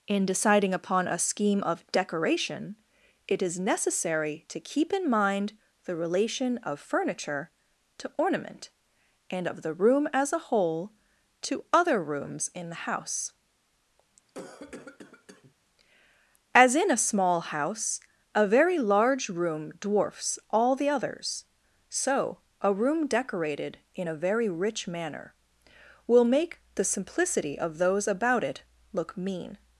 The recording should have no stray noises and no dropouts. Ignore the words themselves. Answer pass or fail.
fail